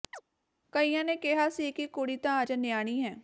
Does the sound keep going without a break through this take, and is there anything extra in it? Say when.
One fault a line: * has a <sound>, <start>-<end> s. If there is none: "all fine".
* has a chirp, 0.1-0.2 s